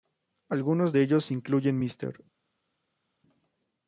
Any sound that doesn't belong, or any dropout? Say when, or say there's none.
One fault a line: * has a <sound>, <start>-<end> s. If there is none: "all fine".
all fine